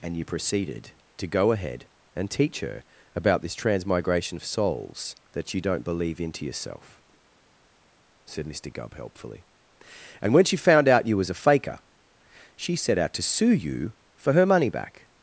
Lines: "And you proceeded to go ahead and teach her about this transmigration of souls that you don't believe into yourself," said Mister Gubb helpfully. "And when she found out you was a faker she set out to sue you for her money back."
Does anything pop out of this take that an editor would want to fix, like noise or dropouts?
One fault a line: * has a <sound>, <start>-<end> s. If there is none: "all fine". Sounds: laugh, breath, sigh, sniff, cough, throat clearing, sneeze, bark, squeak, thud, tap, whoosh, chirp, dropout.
all fine